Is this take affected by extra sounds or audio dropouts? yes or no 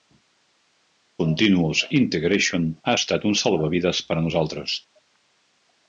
no